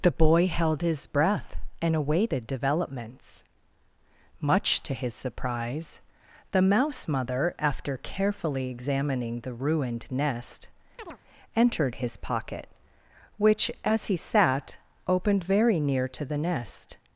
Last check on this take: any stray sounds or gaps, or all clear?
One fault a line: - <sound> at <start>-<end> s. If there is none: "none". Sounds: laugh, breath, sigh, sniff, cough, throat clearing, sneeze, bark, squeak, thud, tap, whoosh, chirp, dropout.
- chirp at 11.0-11.2 s